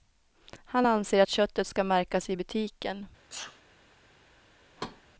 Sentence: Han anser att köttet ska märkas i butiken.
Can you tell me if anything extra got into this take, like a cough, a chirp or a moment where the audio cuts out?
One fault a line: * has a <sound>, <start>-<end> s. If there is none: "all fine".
* has a sneeze, 3.3-3.6 s
* has a thud, 4.8-5.0 s